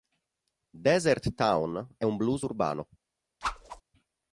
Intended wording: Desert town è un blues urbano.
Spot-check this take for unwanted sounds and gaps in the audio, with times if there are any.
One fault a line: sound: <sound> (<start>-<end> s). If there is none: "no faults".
sound: whoosh (3.4-3.8 s)